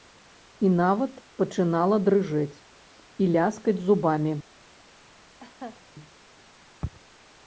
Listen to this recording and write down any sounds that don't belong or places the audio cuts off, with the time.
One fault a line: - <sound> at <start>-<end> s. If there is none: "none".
- laugh at 5.4-5.8 s